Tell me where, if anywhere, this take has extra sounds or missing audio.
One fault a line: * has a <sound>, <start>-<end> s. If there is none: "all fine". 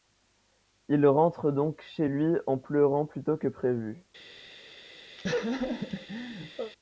* has a laugh, 5.2-6.7 s